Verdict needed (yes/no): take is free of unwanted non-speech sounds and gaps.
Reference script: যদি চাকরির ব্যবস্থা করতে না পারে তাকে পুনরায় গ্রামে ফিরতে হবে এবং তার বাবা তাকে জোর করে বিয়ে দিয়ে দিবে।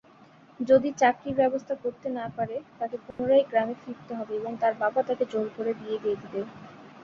no